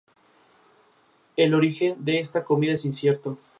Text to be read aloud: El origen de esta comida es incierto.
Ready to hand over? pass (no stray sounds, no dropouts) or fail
pass